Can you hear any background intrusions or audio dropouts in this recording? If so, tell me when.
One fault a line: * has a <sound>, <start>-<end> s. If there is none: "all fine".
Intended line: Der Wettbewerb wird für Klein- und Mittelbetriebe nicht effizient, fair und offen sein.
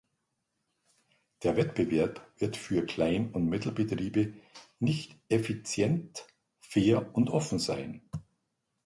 all fine